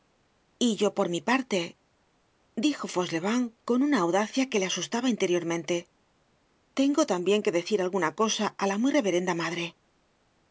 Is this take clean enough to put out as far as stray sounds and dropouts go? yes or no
yes